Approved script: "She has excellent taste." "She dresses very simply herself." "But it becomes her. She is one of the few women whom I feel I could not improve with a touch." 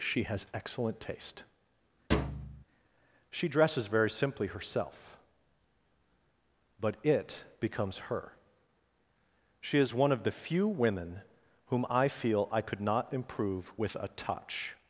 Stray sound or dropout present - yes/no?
yes